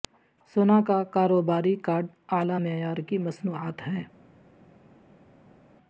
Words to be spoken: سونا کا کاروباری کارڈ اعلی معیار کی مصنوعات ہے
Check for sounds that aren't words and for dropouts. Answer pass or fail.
pass